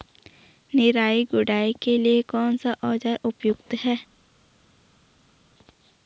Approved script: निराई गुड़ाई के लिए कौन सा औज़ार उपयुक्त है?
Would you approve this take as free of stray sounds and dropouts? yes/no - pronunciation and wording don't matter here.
yes